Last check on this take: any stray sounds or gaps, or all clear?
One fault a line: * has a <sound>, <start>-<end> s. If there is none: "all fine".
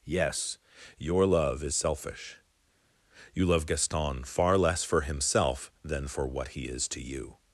all fine